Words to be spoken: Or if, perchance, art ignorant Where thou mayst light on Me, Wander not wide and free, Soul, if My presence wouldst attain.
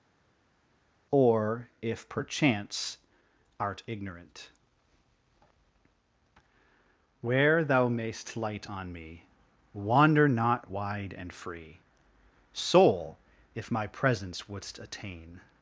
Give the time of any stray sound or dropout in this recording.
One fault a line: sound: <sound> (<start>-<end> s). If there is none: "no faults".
no faults